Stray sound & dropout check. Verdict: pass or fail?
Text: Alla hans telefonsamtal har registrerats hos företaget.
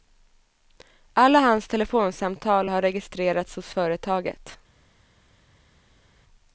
pass